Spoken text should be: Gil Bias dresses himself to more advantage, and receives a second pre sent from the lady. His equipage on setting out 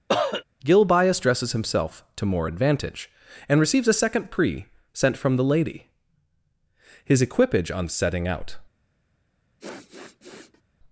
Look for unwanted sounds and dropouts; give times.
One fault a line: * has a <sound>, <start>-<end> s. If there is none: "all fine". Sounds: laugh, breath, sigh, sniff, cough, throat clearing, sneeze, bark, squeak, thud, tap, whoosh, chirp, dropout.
* has a cough, 0.1-0.4 s
* has a sniff, 9.6-10.6 s